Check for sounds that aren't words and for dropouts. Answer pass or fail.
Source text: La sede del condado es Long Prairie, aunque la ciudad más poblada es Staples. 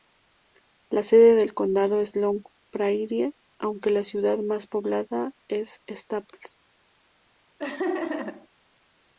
fail